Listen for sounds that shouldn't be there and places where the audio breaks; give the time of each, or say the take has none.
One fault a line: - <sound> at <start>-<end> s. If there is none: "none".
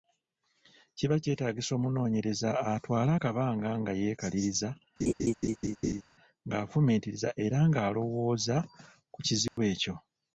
- laugh at 5.0-6.0 s
- dropout at 9.5-9.6 s